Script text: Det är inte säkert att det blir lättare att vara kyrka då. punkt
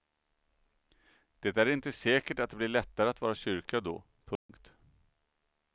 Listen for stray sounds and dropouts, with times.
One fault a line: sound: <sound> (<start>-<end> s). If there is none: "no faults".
sound: dropout (4.4-4.5 s)